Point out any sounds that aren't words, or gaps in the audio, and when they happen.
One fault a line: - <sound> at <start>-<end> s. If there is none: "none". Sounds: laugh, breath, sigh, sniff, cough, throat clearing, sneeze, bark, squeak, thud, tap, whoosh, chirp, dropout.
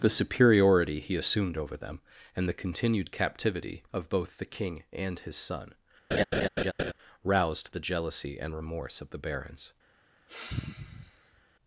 - laugh at 6.1-6.9 s
- sigh at 10.3-11.4 s